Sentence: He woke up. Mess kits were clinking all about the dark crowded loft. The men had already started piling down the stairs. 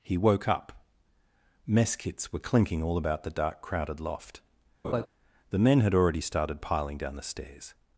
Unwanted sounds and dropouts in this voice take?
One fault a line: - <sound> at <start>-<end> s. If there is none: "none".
- laugh at 4.8-5.1 s